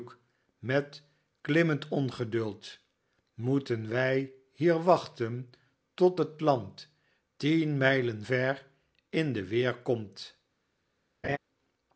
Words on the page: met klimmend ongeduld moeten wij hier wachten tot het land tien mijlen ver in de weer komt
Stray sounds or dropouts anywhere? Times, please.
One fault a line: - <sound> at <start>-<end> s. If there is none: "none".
- laugh at 11.2-11.4 s